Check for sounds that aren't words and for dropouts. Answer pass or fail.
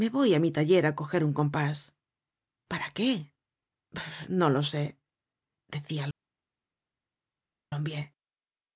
pass